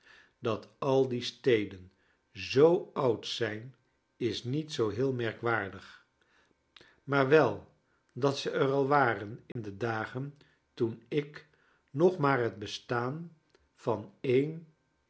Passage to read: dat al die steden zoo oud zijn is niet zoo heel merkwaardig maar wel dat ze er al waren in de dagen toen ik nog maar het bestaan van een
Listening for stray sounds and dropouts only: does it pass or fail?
fail